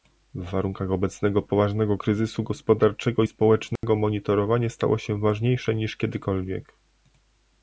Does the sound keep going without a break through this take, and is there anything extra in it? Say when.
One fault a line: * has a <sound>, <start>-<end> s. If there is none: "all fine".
* has a dropout, 3.8-3.8 s